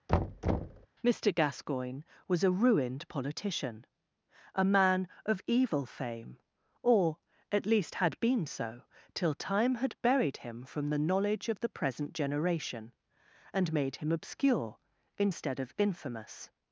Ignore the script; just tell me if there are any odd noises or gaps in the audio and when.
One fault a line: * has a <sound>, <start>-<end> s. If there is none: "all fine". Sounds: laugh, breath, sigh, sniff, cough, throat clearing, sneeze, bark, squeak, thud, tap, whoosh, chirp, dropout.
* has a thud, 0.1-0.9 s